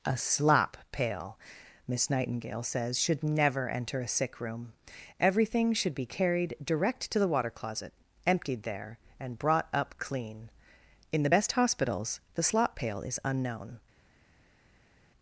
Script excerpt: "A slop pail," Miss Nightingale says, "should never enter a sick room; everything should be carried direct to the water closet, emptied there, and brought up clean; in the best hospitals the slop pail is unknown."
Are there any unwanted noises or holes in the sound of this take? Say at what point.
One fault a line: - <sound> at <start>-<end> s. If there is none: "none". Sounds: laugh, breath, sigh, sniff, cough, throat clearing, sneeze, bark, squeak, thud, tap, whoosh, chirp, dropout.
none